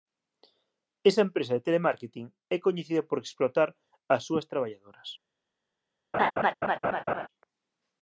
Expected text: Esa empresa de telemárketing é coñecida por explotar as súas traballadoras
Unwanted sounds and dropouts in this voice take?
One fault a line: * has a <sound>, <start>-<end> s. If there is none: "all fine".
* has a laugh, 6.1-7.3 s